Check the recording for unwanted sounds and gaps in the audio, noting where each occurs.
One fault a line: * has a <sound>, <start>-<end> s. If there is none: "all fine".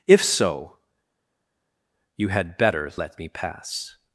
all fine